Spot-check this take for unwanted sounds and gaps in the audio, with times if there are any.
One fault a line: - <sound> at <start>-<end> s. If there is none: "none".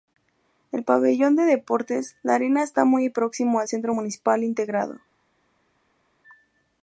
none